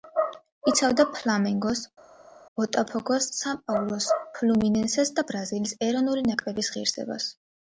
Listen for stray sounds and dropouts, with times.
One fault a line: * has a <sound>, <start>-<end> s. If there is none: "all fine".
all fine